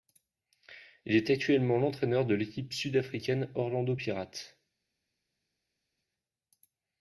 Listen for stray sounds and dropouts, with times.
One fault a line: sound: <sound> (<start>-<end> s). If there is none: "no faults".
no faults